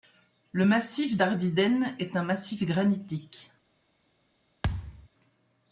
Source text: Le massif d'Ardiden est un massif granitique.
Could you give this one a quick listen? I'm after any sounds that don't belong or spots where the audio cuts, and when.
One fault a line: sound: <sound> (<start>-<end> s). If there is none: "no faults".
sound: thud (4.6-5.1 s)